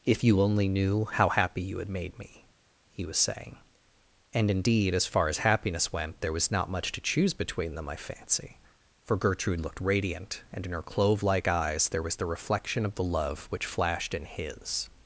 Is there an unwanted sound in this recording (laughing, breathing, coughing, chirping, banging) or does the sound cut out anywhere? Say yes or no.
no